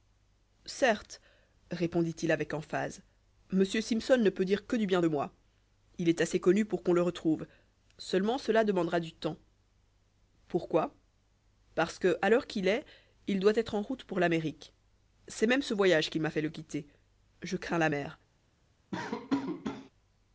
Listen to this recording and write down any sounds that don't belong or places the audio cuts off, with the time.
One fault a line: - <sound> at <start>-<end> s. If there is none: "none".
- laugh at 18.9-19.9 s